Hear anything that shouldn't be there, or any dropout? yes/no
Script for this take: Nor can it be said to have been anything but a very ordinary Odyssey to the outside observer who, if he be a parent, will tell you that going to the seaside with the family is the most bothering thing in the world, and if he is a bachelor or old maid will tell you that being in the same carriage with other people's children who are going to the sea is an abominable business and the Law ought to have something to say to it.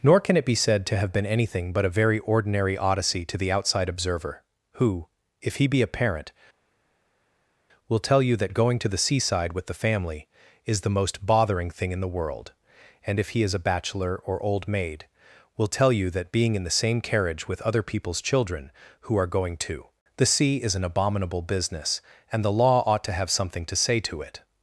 no